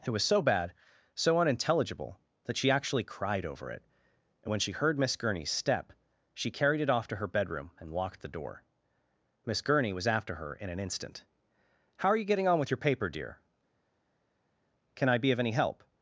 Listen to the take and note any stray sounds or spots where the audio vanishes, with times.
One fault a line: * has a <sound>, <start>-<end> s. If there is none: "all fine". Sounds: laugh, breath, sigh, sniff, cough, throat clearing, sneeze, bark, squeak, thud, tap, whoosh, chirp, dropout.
all fine